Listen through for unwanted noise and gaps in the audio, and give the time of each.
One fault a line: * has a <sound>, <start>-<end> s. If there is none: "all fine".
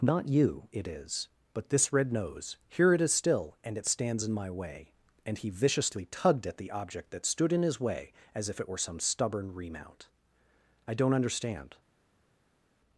all fine